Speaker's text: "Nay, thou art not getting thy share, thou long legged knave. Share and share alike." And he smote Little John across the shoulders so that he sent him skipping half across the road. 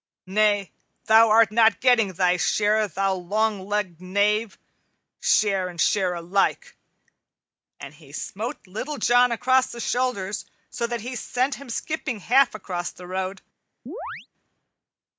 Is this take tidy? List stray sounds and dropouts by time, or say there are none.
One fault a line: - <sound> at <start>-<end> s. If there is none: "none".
- chirp at 13.9-14.3 s